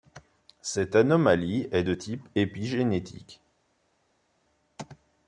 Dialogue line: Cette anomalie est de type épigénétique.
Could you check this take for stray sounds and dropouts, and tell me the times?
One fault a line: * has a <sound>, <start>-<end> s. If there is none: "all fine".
all fine